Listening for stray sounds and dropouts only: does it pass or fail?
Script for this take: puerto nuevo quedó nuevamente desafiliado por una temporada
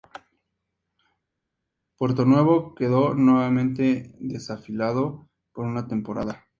pass